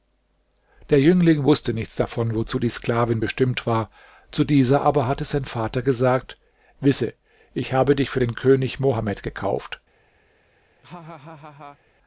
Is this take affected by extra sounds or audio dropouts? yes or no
yes